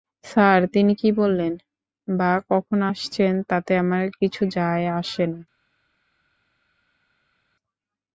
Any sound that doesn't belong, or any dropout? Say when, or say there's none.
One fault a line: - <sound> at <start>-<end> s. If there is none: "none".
none